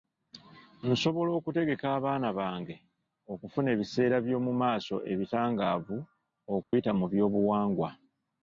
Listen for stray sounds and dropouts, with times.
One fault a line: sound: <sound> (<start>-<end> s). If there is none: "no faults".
sound: dropout (6.6-6.7 s)